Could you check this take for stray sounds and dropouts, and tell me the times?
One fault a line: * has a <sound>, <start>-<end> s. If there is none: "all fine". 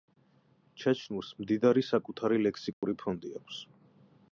* has a dropout, 2.7-2.8 s